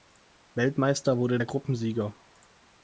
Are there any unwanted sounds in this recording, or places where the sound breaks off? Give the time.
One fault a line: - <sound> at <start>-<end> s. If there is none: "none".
none